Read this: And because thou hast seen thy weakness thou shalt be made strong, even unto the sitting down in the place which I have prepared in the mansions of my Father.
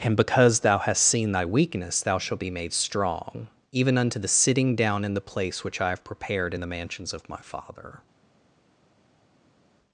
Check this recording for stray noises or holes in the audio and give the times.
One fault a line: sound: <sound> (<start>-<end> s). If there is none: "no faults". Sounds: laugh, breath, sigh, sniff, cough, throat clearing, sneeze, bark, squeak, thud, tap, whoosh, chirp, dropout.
no faults